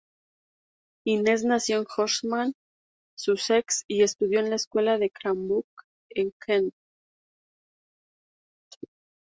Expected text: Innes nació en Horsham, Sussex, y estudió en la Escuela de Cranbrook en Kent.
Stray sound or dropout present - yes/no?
no